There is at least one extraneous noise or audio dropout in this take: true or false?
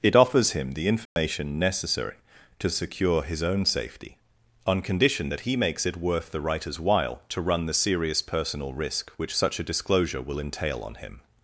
true